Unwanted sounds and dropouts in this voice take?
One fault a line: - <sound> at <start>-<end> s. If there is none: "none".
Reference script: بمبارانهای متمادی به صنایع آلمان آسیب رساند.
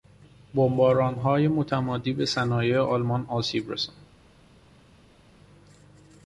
none